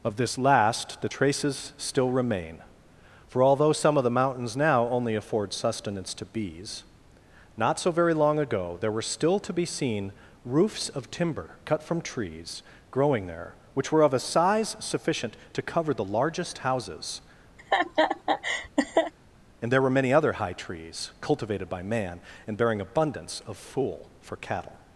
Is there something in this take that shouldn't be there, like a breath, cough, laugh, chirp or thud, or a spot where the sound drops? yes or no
yes